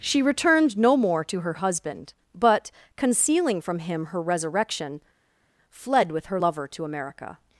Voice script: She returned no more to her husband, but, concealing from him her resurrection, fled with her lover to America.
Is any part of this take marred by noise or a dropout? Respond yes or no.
no